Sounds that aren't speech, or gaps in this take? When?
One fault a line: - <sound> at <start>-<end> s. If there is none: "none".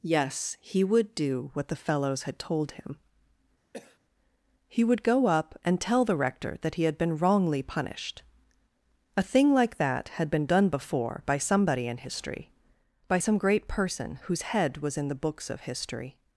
- cough at 3.7-4.0 s